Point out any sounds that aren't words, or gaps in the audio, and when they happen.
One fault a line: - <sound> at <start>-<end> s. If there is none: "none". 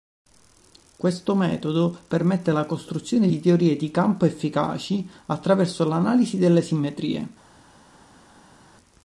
none